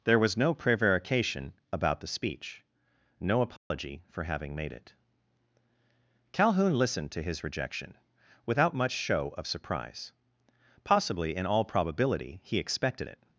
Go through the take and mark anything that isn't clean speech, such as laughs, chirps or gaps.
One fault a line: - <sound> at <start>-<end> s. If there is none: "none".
- dropout at 3.6-3.7 s